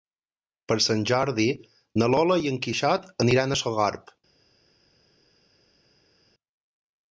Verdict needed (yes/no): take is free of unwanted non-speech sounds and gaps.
yes